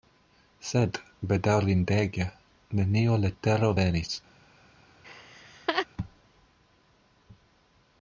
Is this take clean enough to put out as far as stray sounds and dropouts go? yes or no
no